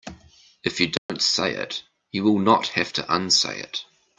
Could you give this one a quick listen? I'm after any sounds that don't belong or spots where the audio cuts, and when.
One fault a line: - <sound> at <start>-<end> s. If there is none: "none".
- dropout at 1.0-1.1 s